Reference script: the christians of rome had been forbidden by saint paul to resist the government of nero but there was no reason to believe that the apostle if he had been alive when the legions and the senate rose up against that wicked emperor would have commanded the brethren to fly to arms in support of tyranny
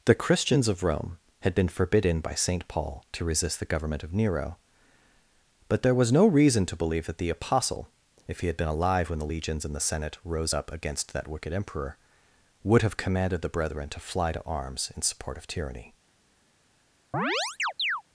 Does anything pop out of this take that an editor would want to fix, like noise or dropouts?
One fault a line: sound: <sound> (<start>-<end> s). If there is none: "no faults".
sound: chirp (17.1-18.0 s)